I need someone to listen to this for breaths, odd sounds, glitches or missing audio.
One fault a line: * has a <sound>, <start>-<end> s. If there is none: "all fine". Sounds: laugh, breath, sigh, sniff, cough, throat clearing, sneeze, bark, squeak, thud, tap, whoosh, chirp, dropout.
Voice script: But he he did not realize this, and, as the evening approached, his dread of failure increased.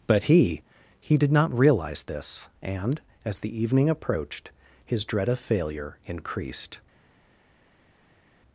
all fine